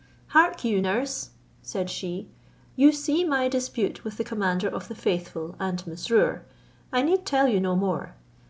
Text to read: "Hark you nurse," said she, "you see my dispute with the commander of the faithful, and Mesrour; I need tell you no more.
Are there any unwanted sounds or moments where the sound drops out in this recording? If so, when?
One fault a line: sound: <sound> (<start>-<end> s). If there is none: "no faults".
no faults